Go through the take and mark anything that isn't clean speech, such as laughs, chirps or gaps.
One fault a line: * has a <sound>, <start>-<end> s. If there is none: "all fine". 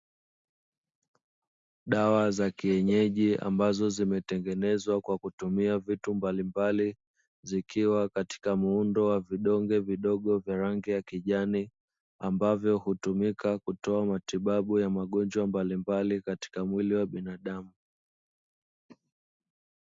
all fine